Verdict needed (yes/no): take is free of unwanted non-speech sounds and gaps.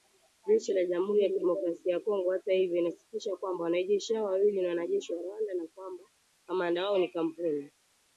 yes